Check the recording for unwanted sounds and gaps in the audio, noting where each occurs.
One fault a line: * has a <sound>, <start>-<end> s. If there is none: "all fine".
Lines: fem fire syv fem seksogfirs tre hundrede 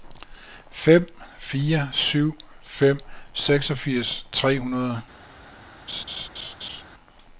* has a laugh, 5.9-6.8 s